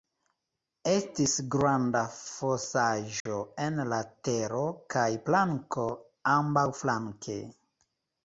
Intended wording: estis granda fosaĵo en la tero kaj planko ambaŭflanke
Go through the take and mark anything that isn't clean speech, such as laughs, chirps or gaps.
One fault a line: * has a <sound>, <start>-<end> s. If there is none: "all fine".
* has a dropout, 3.2-3.3 s